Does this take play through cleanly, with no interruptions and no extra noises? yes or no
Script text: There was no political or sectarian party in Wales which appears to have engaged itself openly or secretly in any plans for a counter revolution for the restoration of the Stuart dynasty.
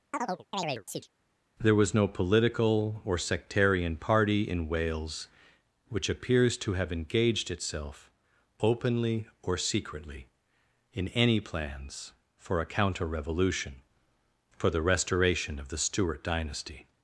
no